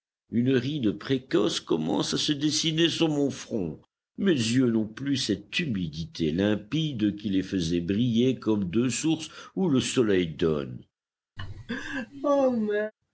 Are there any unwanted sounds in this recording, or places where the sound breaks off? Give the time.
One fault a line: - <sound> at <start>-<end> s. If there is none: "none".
- laugh at 11.4-12.9 s